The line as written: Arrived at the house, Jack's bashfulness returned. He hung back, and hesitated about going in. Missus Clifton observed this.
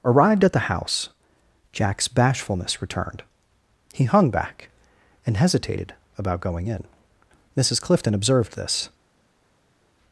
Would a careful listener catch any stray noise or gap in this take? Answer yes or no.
no